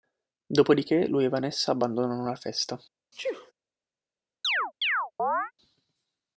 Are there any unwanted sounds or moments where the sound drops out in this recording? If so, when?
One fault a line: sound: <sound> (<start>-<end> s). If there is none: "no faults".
sound: sneeze (3.1-3.5 s)
sound: chirp (4.4-5.5 s)